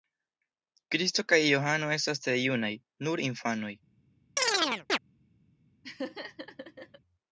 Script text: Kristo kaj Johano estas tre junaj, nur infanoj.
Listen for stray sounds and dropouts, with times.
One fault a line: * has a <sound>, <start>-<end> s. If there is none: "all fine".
* has a chirp, 4.4-5.0 s
* has a laugh, 5.8-7.0 s